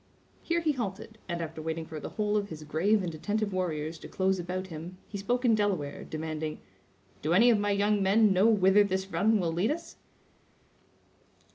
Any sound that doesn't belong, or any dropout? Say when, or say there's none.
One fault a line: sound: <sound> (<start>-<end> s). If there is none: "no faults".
no faults